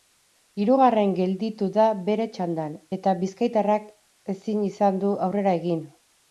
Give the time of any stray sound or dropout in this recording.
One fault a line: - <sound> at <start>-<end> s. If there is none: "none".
none